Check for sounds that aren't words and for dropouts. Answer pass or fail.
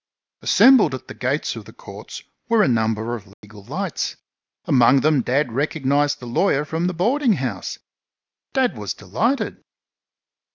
fail